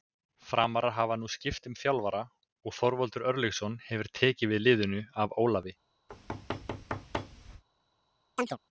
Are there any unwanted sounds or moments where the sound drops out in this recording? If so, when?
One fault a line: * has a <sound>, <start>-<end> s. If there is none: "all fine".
* has a thud, 6.1-7.6 s
* has a chirp, 8.4-8.6 s